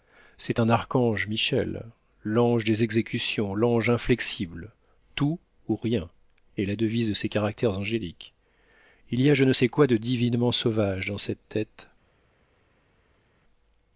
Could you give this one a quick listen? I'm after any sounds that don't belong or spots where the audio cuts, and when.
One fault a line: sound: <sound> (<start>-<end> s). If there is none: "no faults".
no faults